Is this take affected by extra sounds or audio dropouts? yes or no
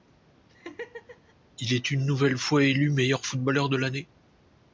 yes